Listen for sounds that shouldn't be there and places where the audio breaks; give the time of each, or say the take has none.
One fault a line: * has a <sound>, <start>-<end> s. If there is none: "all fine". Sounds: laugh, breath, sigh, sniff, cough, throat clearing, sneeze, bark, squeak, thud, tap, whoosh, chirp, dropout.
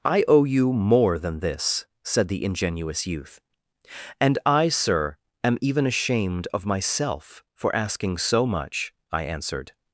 all fine